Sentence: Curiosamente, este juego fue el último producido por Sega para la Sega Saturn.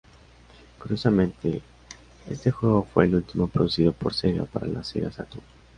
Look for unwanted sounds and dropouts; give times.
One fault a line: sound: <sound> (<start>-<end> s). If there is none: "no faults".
no faults